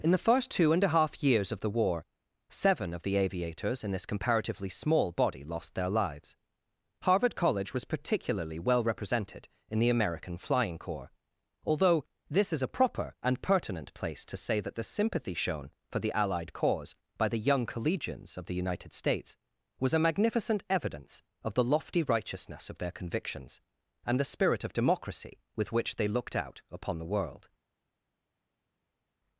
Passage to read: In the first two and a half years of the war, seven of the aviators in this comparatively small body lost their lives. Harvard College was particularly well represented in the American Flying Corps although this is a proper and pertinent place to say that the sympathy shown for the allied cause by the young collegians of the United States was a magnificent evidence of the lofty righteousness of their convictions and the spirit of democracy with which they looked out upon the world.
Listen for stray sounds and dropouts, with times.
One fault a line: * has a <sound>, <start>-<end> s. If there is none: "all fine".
all fine